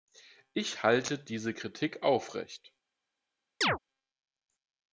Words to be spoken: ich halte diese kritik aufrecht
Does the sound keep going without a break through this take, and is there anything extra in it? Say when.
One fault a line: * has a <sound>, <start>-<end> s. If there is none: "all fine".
* has a chirp, 3.6-3.8 s